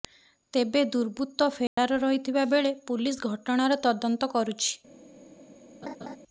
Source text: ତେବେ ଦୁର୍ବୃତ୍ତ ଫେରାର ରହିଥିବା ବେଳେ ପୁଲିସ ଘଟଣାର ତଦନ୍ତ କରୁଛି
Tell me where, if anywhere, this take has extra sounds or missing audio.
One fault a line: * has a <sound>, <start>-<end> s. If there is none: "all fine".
* has a dropout, 1.7-1.8 s
* has a laugh, 5.8-6.2 s